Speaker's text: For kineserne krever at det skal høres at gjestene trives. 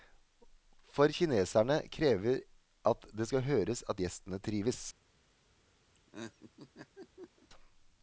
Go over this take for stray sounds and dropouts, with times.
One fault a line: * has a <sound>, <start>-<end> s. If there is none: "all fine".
* has a laugh, 5.9-7.5 s